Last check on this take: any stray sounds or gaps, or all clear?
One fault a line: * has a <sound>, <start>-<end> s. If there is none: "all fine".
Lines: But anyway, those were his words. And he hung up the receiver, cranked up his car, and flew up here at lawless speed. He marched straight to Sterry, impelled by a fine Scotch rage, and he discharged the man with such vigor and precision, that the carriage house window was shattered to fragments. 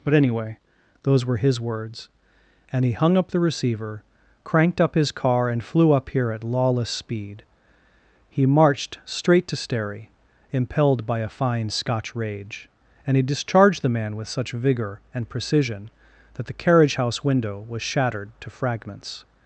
all fine